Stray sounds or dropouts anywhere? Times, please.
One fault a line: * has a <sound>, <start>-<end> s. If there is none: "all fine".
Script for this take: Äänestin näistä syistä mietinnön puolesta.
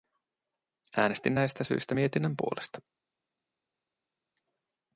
all fine